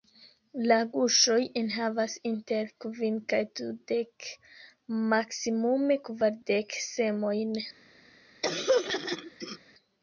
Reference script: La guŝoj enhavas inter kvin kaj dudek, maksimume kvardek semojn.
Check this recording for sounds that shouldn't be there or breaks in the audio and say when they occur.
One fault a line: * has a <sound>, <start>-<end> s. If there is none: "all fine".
* has a throat clearing, 8.4-9.6 s